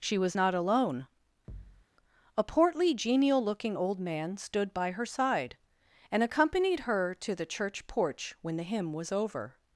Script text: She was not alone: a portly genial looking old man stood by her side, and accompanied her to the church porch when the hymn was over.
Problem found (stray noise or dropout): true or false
true